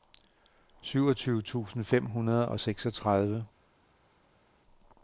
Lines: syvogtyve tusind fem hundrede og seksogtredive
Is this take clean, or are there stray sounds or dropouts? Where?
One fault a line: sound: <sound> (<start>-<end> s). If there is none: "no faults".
no faults